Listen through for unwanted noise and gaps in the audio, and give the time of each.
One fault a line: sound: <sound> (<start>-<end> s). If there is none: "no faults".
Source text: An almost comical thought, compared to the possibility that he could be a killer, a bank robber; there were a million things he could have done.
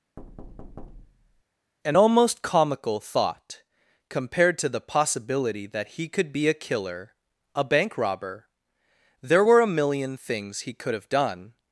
sound: thud (0.2-1.4 s)